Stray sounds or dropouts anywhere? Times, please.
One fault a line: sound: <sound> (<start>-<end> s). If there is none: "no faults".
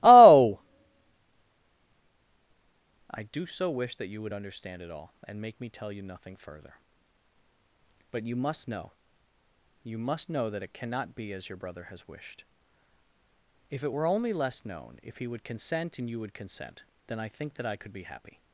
no faults